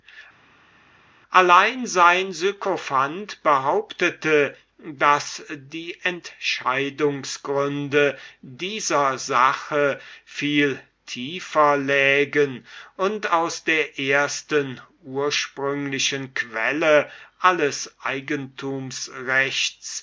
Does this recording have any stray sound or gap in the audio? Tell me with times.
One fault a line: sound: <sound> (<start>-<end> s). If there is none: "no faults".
no faults